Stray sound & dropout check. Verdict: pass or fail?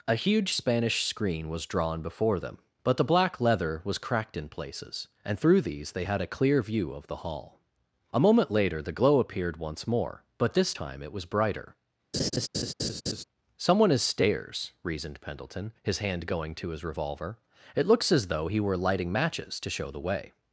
fail